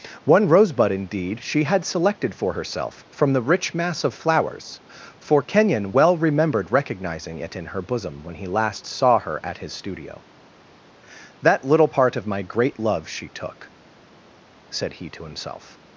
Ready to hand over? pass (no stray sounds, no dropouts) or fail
pass